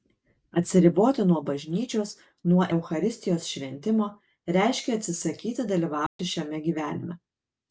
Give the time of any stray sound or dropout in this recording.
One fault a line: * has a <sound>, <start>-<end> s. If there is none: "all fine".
* has a dropout, 6.1-6.2 s